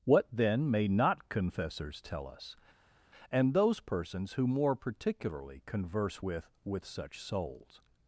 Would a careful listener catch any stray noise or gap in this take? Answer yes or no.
no